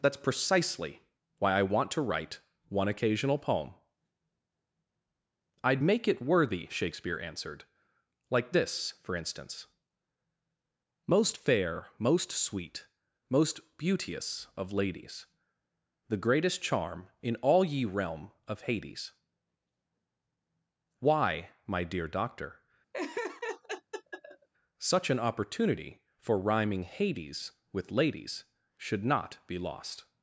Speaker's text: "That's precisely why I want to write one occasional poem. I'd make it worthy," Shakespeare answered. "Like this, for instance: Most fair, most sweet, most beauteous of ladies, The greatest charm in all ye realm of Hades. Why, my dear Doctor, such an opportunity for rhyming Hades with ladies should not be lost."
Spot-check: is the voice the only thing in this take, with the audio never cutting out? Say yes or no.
no